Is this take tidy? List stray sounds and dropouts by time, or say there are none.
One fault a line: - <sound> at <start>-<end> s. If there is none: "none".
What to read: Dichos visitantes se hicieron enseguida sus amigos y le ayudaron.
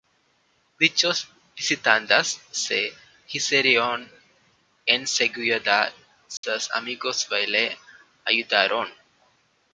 - dropout at 6.4-6.4 s